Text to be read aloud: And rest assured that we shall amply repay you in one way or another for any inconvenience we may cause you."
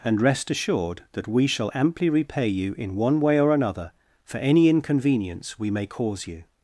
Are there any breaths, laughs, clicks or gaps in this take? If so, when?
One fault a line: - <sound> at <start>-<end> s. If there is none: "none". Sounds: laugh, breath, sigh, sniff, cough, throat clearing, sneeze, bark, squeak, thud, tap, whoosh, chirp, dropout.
none